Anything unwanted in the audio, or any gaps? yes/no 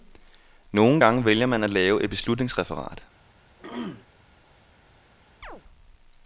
yes